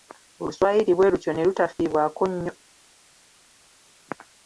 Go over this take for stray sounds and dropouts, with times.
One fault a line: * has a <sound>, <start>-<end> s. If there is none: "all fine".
all fine